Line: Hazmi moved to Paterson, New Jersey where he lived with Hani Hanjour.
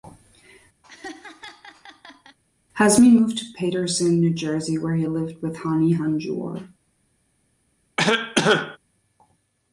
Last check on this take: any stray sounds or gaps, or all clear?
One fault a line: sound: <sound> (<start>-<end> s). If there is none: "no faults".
sound: laugh (0.8-2.4 s)
sound: cough (8.0-8.8 s)